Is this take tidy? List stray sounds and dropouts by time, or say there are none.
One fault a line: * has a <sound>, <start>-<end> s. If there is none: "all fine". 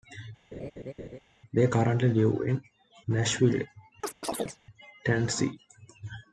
* has a laugh, 0.5-1.2 s
* has a chirp, 4.0-4.6 s